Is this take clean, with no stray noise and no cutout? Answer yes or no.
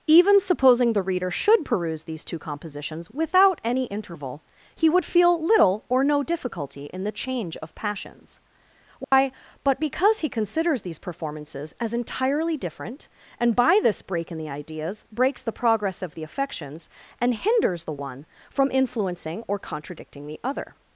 no